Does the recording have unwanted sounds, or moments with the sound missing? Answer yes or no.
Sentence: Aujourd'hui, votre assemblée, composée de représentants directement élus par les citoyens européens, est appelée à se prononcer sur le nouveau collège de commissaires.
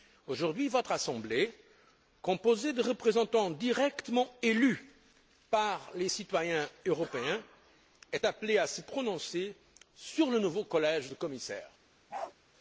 yes